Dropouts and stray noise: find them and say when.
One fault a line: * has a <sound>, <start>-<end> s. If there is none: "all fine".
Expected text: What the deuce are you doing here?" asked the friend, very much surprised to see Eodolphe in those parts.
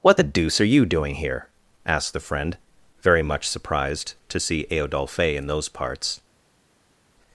all fine